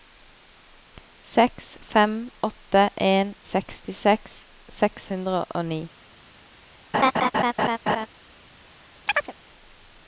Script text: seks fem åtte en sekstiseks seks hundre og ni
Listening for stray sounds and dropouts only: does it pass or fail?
fail